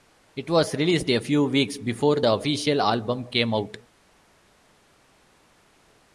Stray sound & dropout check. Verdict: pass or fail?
pass